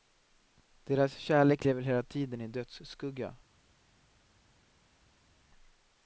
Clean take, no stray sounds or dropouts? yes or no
yes